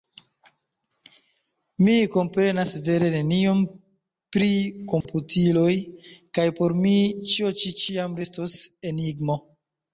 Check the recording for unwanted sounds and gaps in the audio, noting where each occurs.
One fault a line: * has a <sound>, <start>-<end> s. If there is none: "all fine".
* has a dropout, 5.0-5.1 s